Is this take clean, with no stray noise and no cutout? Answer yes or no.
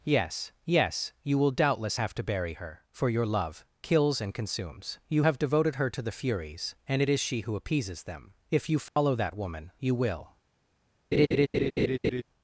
no